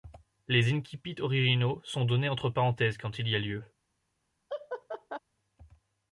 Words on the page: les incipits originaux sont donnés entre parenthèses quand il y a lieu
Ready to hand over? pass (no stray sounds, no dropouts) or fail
fail